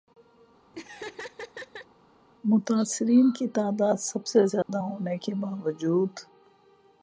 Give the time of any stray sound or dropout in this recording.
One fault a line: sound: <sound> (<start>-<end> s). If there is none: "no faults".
sound: laugh (0.7-1.9 s)
sound: dropout (4.6-4.7 s)